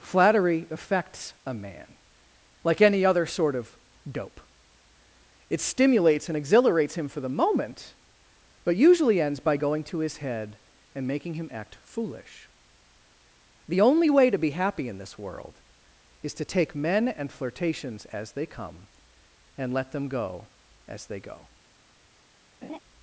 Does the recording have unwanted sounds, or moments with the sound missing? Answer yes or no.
yes